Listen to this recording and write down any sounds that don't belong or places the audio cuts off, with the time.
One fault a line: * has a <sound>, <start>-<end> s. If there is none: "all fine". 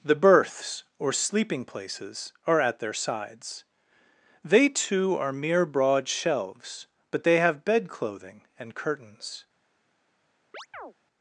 * has a chirp, 10.5-10.9 s